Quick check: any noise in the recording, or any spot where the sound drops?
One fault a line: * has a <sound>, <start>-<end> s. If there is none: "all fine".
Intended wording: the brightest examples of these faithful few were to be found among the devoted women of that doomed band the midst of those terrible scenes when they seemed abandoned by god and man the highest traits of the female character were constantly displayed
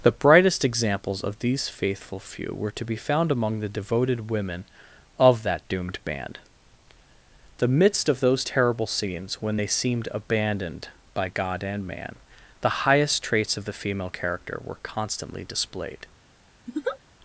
* has a laugh, 16.7-17.0 s